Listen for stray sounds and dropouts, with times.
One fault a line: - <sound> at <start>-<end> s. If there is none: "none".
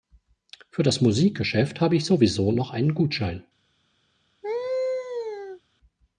- laugh at 4.4-5.6 s